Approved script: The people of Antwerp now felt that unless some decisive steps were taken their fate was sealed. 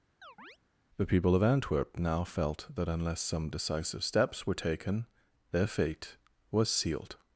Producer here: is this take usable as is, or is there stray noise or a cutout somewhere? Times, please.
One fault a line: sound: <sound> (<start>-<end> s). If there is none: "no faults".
sound: chirp (0.2-0.6 s)